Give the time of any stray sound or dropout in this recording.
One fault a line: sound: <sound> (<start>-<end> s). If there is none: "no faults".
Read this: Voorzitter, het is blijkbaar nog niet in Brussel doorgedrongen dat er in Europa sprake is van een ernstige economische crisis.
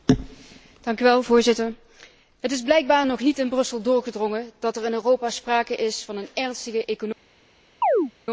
sound: chirp (7.8-8.1 s)